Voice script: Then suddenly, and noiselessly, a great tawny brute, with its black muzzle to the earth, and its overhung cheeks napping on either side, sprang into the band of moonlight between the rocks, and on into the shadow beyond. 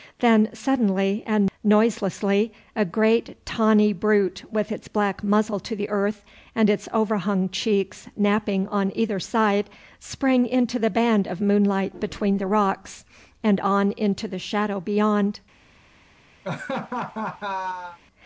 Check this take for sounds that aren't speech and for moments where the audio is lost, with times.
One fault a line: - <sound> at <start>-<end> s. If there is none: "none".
- laugh at 16.4-18.0 s